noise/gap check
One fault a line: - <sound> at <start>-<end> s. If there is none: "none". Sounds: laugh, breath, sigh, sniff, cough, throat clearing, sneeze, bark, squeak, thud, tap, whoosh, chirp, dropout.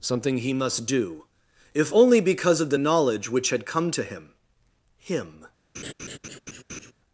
- laugh at 5.7-6.9 s